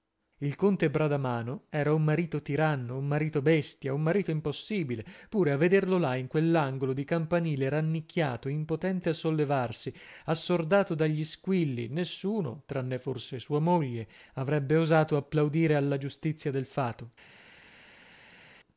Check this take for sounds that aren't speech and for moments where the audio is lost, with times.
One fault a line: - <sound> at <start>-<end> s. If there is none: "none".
none